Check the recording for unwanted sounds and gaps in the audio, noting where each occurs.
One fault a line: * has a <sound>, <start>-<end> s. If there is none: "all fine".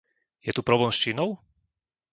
all fine